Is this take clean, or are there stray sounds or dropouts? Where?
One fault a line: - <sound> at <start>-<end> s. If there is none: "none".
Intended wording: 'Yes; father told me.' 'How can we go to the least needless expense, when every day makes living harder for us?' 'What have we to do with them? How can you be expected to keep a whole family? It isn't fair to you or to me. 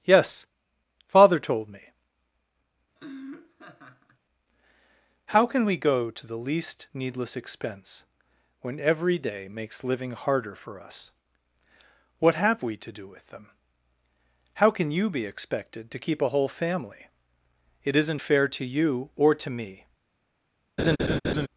- laugh at 3.0-4.2 s
- laugh at 20.8-21.5 s